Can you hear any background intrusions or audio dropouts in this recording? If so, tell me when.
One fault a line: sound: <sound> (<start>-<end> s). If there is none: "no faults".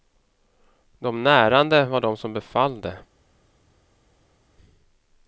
no faults